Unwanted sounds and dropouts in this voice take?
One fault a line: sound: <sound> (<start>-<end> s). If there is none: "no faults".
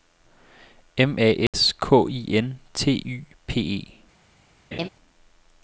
sound: dropout (1.5-1.5 s)
sound: laugh (4.7-4.9 s)